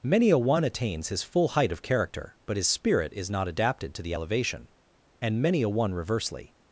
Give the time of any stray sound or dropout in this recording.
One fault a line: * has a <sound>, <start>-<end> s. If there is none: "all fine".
all fine